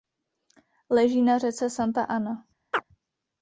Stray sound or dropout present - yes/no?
yes